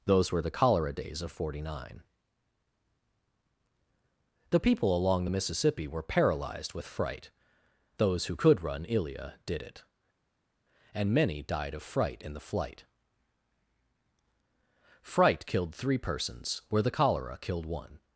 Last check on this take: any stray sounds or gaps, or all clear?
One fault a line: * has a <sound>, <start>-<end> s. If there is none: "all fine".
all fine